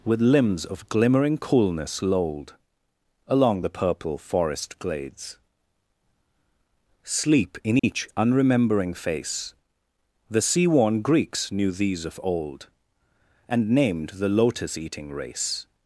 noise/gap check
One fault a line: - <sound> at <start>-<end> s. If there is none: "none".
- dropout at 7.8-7.8 s